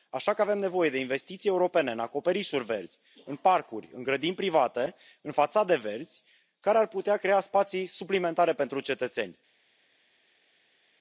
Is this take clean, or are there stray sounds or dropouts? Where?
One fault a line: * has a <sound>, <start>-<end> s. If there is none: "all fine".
all fine